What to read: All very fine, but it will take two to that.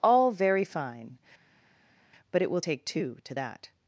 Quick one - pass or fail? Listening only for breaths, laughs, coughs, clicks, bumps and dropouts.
pass